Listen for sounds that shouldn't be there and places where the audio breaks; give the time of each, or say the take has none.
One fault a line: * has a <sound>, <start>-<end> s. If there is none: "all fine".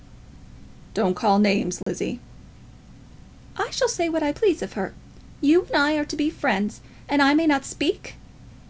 * has a dropout, 1.8-1.9 s